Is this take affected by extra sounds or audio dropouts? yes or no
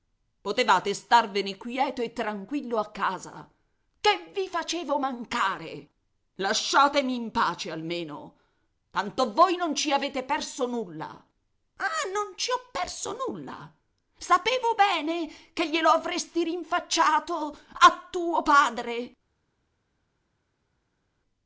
no